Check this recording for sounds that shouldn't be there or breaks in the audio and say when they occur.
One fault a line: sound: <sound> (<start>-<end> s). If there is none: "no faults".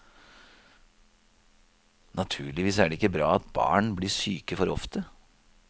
no faults